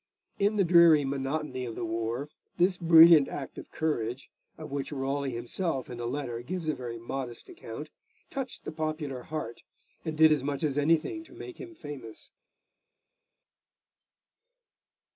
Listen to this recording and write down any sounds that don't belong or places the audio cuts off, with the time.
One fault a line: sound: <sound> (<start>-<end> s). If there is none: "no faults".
no faults